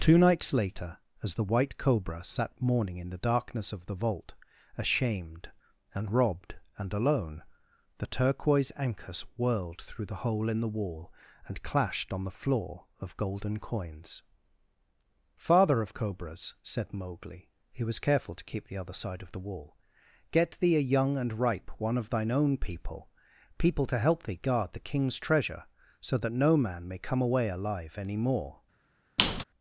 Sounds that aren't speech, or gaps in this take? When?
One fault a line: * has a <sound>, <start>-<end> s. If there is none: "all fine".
* has a squeak, 29.2-29.4 s